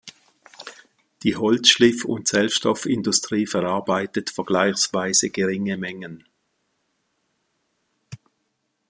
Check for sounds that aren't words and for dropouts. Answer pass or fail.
pass